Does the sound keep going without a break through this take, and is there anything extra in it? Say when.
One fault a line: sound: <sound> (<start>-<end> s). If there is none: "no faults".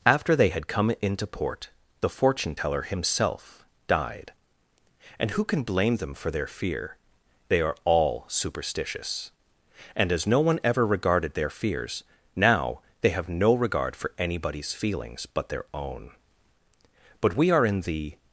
no faults